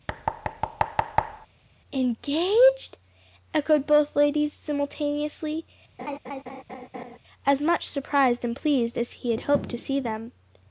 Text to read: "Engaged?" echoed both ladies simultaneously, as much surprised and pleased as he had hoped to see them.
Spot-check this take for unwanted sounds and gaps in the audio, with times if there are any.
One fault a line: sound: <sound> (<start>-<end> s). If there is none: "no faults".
sound: thud (0.1-1.5 s)
sound: laugh (6.0-7.2 s)